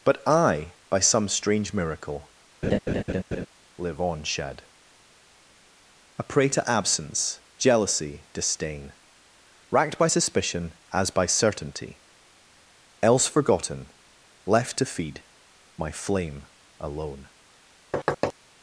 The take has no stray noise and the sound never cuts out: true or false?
false